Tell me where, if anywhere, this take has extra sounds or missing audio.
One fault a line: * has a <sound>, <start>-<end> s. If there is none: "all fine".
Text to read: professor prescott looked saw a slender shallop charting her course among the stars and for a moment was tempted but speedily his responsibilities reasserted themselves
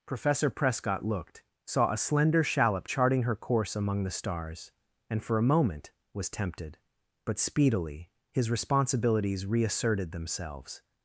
all fine